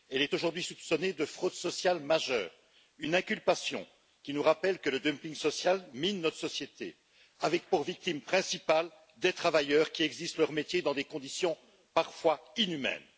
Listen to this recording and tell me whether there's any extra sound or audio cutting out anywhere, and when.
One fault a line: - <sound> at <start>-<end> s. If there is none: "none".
none